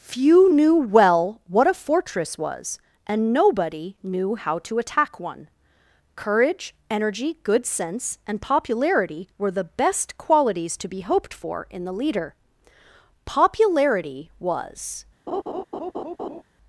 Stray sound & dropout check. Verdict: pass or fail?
fail